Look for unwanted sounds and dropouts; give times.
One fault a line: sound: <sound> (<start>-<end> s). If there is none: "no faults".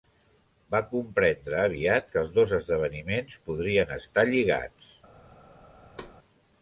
sound: thud (6.0-6.2 s)